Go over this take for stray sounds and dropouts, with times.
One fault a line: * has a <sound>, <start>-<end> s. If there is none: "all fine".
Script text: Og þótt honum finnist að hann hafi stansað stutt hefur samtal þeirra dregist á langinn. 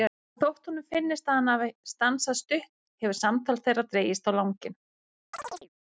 * has a chirp, 5.3-5.7 s